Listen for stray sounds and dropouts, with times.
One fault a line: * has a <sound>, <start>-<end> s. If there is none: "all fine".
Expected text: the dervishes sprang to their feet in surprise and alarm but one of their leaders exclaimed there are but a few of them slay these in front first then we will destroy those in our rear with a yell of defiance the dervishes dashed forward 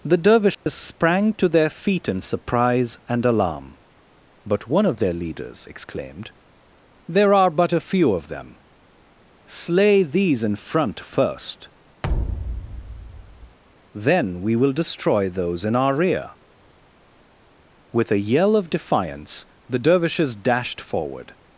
* has a dropout, 0.5-0.7 s
* has a thud, 12.0-13.6 s